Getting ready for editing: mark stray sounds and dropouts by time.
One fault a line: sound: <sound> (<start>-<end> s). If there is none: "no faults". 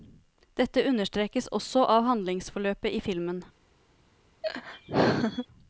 sound: laugh (4.4-5.5 s)